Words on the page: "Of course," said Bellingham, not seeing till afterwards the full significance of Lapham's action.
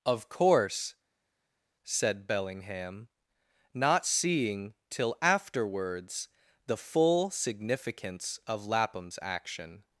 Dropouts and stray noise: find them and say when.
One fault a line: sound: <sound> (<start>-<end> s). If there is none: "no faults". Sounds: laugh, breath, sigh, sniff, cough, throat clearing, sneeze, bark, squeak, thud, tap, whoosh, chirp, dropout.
no faults